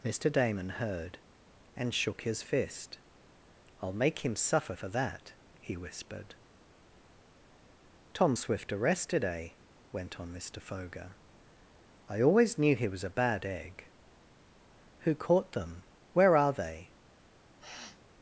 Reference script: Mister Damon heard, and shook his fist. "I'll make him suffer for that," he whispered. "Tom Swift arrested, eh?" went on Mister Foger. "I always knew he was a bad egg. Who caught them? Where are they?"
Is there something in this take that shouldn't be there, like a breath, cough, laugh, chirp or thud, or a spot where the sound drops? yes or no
yes